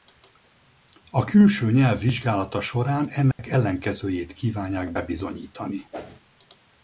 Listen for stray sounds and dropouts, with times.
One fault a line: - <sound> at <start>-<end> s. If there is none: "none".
- dropout at 3.3-3.4 s
- whoosh at 5.9-6.2 s